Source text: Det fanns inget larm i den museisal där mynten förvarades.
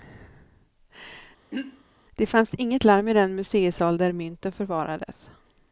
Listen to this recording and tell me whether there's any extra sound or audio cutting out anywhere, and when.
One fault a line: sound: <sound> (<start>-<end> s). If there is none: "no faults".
sound: throat clearing (1.5-1.8 s)